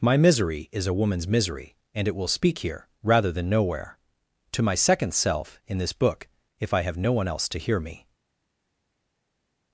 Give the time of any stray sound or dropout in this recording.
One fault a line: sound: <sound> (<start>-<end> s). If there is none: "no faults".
no faults